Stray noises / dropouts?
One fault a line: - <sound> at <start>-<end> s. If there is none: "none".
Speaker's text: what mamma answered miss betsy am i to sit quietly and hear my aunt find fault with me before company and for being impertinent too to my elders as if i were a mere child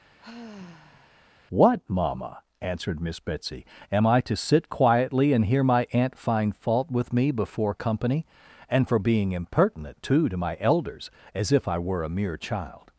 - sigh at 0.2-1.2 s